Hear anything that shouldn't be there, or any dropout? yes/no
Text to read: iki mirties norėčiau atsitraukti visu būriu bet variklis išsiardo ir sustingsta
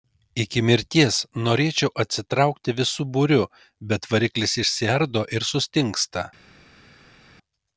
no